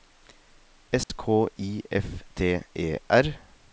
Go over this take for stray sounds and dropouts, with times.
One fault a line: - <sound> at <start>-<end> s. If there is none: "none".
- dropout at 1.0-1.1 s